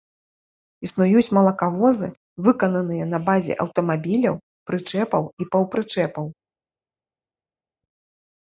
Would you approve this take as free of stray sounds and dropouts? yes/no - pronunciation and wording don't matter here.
yes